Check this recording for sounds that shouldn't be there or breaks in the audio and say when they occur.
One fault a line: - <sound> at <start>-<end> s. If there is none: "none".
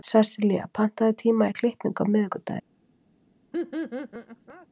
- laugh at 3.5-4.7 s